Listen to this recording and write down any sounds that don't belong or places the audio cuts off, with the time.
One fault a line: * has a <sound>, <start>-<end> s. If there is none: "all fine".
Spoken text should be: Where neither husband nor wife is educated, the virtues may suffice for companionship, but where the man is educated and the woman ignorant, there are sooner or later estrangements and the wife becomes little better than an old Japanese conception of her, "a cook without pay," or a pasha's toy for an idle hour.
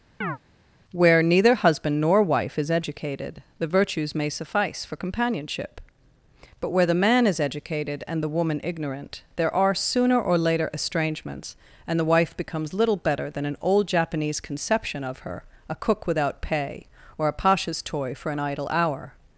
* has a chirp, 0.2-0.4 s